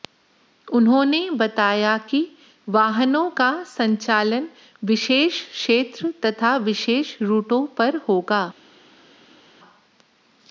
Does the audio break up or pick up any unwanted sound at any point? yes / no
no